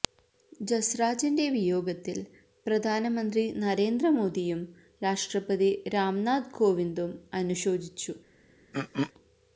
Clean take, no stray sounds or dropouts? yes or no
no